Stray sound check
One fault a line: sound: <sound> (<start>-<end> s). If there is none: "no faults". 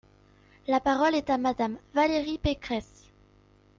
no faults